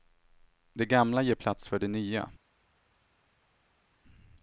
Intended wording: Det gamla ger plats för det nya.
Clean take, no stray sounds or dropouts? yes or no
yes